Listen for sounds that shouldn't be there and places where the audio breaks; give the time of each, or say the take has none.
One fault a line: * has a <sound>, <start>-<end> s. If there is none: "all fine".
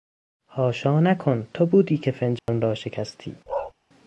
* has a dropout, 2.4-2.5 s
* has a bark, 3.5-3.7 s